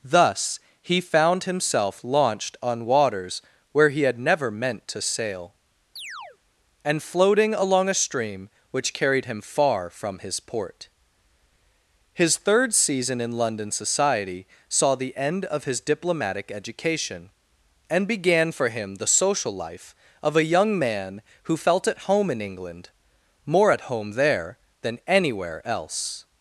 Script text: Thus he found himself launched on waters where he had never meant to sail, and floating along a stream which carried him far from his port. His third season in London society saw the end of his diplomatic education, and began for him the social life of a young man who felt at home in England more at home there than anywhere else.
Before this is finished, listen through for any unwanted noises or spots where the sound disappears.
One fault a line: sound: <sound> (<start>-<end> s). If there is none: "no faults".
sound: chirp (6.0-6.4 s)